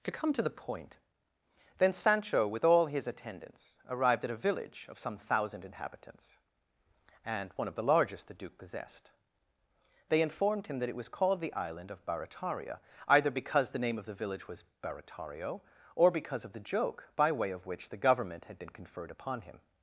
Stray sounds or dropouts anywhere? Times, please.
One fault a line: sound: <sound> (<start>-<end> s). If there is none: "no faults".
no faults